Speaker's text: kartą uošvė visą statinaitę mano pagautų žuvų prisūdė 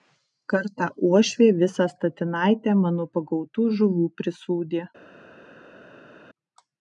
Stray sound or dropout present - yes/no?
no